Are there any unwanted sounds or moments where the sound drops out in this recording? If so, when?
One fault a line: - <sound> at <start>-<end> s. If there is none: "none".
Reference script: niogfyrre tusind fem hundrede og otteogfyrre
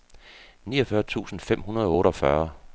none